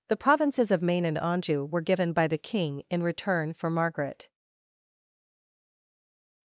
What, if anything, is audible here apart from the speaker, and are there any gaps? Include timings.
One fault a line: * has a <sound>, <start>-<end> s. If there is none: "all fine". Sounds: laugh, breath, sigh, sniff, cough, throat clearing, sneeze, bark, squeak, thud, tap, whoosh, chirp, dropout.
all fine